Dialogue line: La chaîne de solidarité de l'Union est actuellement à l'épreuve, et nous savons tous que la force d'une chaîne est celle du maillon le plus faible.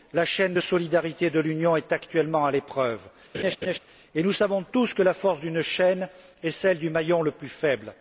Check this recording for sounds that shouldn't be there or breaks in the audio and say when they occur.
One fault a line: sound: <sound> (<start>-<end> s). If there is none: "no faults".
sound: laugh (3.3-3.8 s)